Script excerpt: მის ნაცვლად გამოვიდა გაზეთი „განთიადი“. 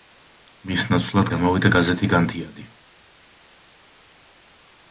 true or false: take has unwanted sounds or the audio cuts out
false